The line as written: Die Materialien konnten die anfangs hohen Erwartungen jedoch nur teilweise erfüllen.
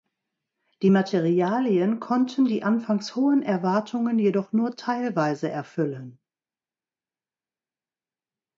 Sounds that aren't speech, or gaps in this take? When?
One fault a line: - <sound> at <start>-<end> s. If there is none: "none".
none